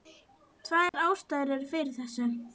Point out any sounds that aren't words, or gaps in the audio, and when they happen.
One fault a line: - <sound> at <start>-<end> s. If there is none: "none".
- dropout at 0.9-0.9 s